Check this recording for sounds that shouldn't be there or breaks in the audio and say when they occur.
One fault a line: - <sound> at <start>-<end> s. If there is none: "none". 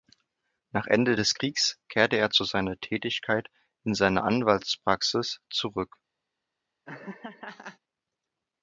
- laugh at 6.9-7.8 s